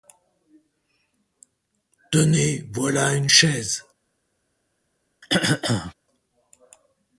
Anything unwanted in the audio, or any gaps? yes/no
yes